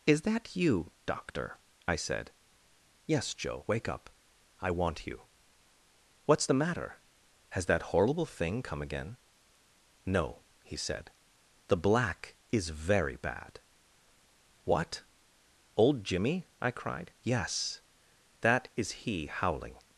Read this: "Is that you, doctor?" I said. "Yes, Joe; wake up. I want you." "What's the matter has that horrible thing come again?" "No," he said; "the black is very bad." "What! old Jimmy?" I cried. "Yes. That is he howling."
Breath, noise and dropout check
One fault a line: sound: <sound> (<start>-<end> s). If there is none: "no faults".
no faults